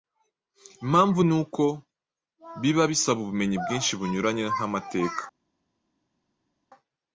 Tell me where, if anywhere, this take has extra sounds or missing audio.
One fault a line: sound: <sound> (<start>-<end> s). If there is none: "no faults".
no faults